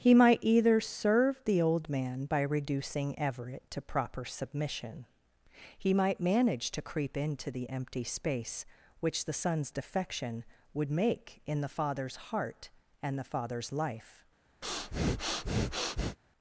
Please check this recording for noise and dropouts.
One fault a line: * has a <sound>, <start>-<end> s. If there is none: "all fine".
* has a breath, 14.6-16.2 s